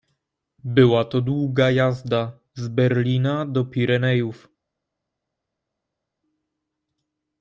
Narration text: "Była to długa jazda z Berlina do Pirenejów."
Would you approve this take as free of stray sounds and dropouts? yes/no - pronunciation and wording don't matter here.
yes